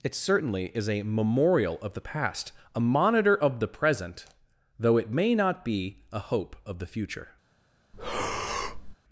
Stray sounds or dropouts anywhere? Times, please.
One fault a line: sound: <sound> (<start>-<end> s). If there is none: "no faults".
sound: breath (7.9-9.0 s)